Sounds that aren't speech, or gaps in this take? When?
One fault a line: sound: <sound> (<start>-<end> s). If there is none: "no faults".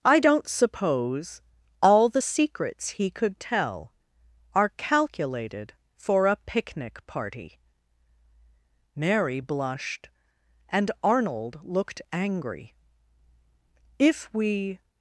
no faults